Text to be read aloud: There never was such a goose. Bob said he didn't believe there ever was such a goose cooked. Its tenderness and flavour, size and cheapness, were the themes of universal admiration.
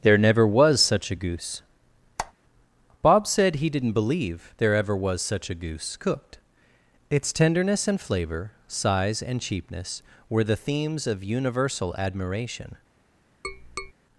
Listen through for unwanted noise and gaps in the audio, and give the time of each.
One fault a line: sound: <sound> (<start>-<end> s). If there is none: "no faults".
sound: squeak (2.2-2.3 s)
sound: tap (13.4-13.9 s)